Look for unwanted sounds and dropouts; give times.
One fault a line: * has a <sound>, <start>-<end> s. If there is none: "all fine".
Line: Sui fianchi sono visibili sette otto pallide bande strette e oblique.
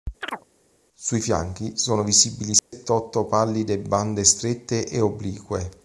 * has a chirp, 0.2-0.4 s
* has a dropout, 2.6-2.7 s